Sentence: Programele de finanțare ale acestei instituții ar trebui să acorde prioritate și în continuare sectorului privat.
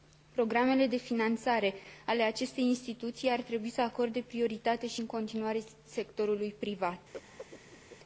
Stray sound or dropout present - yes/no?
yes